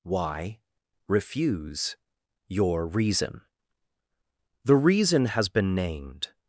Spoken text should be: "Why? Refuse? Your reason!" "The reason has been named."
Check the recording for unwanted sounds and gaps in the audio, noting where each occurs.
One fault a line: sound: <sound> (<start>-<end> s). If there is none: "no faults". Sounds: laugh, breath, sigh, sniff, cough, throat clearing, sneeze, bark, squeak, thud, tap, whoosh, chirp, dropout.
no faults